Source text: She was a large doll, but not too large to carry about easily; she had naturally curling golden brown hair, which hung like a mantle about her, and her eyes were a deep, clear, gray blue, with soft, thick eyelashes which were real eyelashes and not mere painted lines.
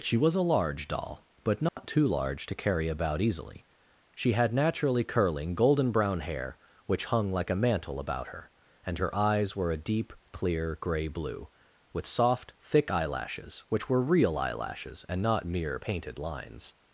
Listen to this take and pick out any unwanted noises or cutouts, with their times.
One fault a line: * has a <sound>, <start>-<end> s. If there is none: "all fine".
* has a dropout, 1.7-1.8 s